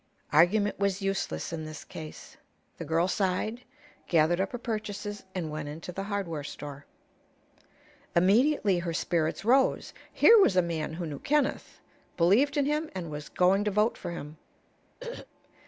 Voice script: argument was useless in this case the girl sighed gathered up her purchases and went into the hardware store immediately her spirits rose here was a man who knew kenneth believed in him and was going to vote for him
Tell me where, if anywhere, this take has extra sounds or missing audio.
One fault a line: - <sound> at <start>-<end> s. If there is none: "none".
- throat clearing at 15.0-15.3 s